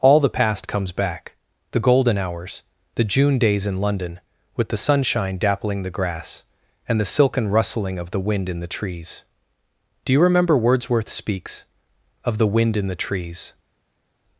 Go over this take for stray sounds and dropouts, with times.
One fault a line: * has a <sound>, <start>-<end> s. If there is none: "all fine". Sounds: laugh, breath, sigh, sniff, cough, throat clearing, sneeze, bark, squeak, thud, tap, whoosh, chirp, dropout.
all fine